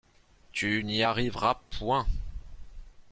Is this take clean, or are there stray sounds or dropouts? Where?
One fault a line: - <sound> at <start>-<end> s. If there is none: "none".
none